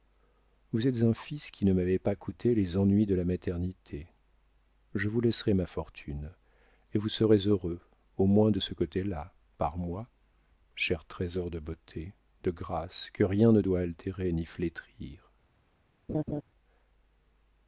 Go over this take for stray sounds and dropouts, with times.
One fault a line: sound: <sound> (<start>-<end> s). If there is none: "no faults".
sound: laugh (16.1-16.4 s)